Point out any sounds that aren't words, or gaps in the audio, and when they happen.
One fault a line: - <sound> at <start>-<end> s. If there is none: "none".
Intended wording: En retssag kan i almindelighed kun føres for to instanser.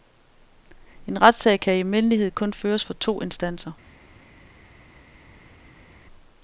none